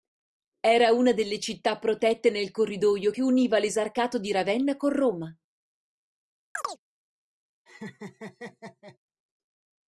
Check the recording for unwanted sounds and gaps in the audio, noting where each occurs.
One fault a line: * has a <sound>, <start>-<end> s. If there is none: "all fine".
* has a chirp, 6.6-6.8 s
* has a laugh, 7.7-9.0 s